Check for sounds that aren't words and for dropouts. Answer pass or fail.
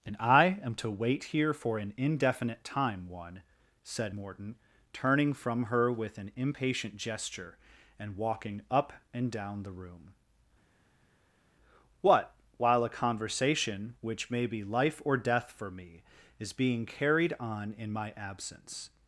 pass